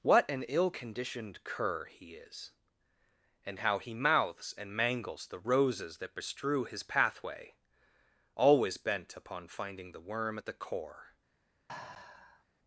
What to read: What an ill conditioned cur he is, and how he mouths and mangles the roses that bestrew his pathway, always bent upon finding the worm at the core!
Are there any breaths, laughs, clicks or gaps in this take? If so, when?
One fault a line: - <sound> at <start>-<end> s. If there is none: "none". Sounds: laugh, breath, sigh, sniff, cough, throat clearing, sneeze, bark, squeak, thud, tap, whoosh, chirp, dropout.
- sigh at 11.7-12.4 s